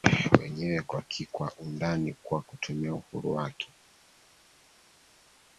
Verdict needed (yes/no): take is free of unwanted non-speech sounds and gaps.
yes